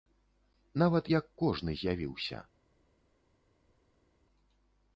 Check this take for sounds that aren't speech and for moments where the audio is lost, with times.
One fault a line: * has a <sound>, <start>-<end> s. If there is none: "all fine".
all fine